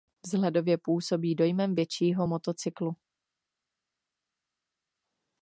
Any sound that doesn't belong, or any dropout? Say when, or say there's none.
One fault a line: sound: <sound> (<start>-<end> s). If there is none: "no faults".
no faults